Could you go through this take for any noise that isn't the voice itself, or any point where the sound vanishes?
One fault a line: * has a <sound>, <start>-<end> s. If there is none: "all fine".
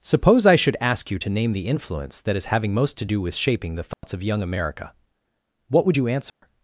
* has a dropout, 3.9-4.0 s
* has a dropout, 6.3-6.4 s